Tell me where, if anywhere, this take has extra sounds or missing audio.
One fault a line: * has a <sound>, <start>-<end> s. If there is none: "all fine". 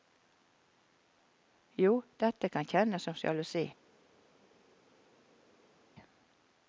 all fine